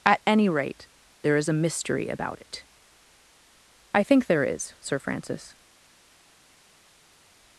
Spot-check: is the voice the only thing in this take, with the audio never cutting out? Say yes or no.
yes